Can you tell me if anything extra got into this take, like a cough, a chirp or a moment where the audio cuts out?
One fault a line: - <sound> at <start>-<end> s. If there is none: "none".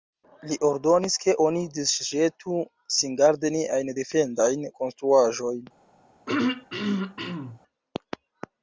- throat clearing at 6.3-7.6 s